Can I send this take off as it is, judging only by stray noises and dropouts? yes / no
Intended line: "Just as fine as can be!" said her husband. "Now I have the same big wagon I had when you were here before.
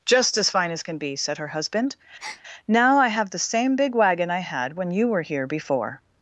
no